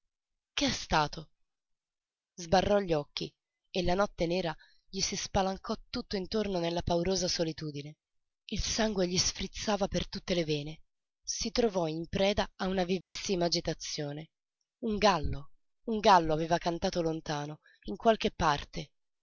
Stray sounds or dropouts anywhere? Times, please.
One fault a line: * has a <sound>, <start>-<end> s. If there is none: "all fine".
* has a dropout, 13.0-13.2 s